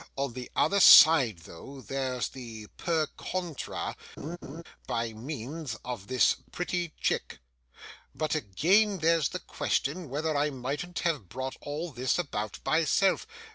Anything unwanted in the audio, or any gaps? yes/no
yes